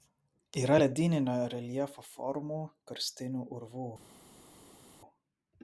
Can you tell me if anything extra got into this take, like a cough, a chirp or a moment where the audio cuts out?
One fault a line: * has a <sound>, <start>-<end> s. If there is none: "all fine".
all fine